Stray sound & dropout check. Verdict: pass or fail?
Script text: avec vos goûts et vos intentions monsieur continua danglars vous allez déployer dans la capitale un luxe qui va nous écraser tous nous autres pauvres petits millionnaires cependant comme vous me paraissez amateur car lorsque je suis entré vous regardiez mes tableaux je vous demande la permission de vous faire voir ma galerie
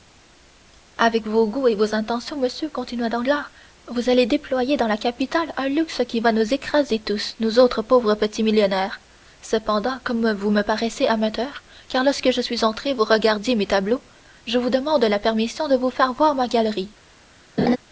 fail